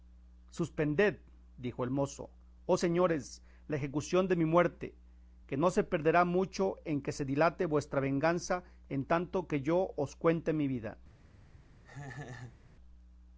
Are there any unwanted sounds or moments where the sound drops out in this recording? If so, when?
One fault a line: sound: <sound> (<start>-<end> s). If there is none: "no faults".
sound: laugh (11.8-12.6 s)